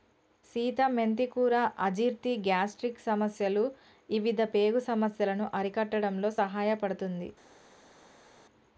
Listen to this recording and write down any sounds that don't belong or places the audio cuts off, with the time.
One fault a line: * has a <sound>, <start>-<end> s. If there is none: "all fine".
all fine